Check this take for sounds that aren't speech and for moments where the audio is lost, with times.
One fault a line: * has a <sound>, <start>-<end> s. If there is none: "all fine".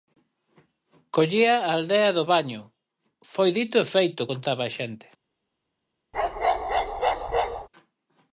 * has a bark, 6.1-7.7 s